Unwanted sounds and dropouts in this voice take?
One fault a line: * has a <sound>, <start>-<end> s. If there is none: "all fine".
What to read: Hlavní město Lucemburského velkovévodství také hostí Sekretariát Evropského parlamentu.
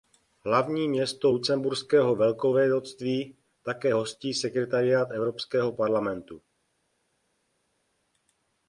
all fine